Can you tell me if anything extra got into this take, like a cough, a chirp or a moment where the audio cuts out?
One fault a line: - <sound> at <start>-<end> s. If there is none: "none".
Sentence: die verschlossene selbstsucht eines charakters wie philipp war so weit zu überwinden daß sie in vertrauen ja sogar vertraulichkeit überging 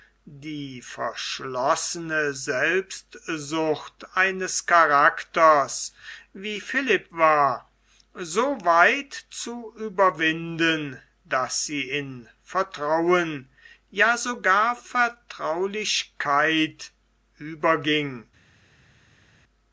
none